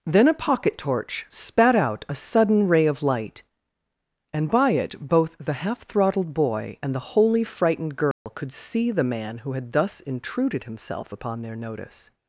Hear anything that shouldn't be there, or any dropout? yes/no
yes